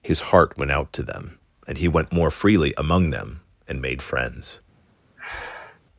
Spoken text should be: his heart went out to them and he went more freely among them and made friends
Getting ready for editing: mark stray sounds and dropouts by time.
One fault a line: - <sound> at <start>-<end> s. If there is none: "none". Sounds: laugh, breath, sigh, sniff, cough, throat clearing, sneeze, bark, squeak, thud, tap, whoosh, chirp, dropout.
- breath at 5.2-5.8 s